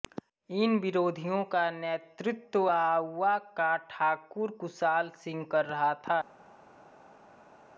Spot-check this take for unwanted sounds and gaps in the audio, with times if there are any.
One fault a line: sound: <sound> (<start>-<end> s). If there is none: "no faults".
no faults